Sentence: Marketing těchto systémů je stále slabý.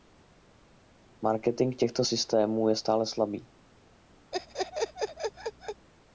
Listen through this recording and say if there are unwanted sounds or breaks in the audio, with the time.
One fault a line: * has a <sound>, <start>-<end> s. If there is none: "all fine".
* has a laugh, 4.3-5.9 s